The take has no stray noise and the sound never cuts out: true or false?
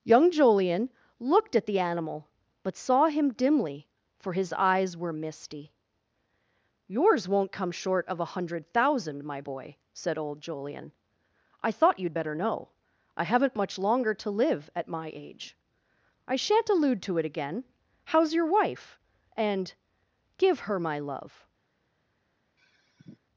false